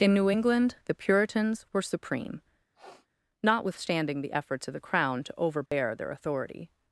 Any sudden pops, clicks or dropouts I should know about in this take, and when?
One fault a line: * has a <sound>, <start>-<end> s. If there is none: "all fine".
* has a sniff, 2.7-3.1 s
* has a dropout, 5.7-5.7 s